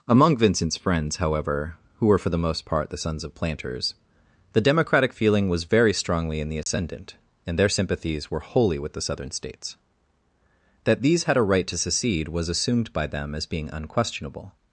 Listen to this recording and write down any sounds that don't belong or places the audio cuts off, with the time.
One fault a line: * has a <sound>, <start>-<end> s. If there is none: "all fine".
* has a dropout, 6.6-6.7 s